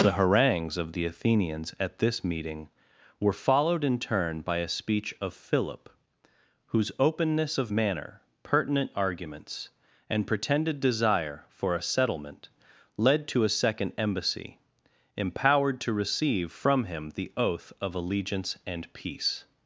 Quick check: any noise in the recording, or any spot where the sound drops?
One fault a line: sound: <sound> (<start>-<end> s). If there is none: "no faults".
no faults